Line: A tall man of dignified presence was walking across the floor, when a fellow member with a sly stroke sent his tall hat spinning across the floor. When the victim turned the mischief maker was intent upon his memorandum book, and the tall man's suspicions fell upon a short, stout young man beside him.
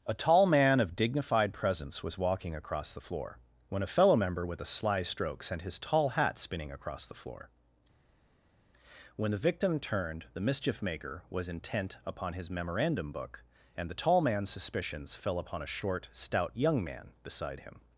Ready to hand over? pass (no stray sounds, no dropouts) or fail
pass